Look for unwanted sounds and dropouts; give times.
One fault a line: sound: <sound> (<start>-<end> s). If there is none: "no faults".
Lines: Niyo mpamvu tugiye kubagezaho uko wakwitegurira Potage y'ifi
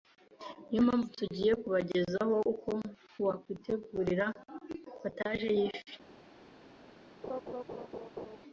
sound: laugh (7.2-8.4 s)